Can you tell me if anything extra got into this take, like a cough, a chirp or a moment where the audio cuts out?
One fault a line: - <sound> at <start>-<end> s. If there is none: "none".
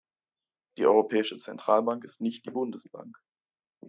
none